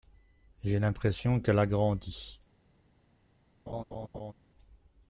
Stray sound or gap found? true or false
true